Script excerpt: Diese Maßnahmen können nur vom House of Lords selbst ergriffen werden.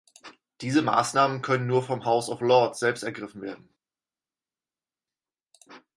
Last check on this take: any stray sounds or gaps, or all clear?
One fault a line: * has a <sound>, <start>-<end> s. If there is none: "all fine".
all fine